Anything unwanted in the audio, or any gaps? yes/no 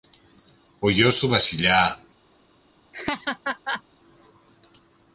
yes